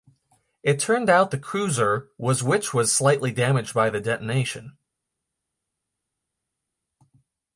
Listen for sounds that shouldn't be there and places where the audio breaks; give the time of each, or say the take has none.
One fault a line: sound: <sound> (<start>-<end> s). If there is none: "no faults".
no faults